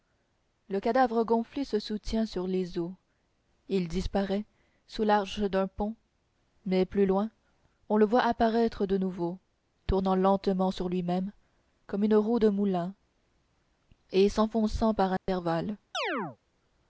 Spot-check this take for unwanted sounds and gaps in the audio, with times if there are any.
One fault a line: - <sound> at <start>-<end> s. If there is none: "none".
- dropout at 15.2-15.3 s
- chirp at 15.9-16.4 s